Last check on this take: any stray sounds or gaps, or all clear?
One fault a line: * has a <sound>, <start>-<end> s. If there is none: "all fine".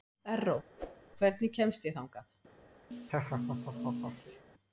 * has a whoosh, 0.8-1.0 s
* has a laugh, 2.9-4.4 s